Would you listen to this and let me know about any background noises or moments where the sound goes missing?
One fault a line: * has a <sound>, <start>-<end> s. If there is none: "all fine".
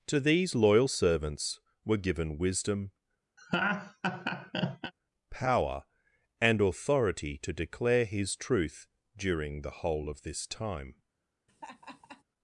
* has a laugh, 3.4-4.9 s
* has a laugh, 11.5-12.2 s